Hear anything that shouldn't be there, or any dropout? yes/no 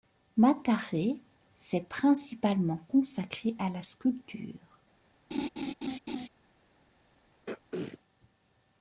yes